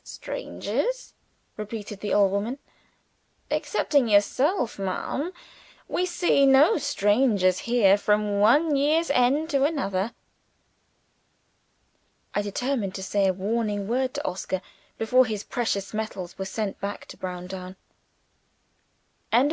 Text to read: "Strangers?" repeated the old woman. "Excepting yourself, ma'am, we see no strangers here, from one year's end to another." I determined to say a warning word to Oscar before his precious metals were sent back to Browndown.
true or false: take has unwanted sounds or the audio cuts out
false